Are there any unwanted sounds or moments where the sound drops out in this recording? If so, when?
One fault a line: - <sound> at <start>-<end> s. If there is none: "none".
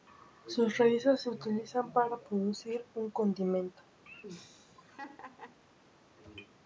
- laugh at 4.1-5.6 s